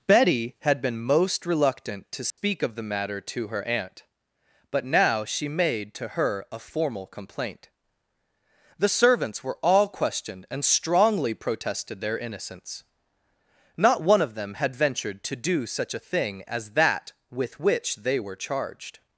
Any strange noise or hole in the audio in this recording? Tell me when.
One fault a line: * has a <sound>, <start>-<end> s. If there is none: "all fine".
* has a dropout, 2.3-2.4 s